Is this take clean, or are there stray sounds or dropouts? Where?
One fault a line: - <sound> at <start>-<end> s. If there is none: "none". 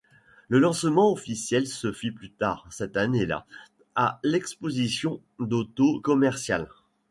none